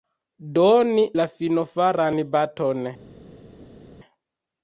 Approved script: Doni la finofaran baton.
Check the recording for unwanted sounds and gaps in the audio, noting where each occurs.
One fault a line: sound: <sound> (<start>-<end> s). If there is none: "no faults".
no faults